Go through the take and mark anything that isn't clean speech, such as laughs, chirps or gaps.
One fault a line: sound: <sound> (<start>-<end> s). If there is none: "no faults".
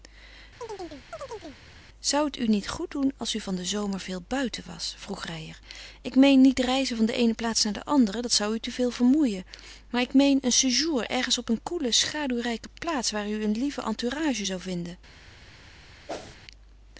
sound: chirp (0.6-1.6 s)
sound: whoosh (16.1-16.4 s)